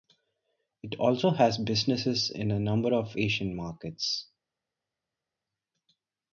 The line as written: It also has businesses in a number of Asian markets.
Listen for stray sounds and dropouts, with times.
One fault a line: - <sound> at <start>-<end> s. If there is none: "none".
none